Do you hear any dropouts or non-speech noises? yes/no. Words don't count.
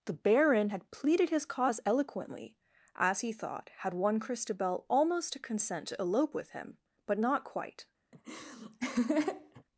yes